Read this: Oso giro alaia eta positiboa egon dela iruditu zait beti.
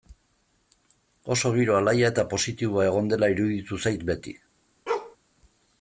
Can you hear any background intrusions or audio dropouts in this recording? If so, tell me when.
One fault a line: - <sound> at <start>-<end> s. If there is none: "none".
- bark at 4.9-5.2 s